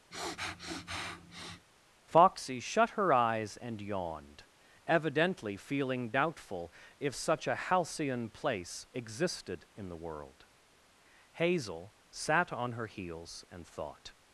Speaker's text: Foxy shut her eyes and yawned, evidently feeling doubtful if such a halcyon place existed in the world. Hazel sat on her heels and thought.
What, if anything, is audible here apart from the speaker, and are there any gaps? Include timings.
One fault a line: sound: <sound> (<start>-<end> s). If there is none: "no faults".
sound: sniff (0.1-1.7 s)